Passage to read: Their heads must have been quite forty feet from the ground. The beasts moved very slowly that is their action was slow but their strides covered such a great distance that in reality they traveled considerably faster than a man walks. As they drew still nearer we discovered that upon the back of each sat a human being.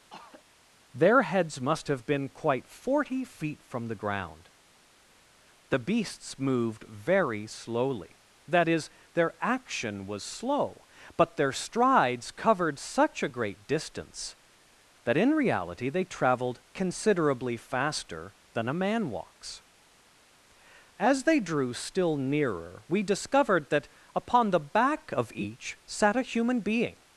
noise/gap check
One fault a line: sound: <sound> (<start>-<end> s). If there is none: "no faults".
sound: throat clearing (0.1-0.4 s)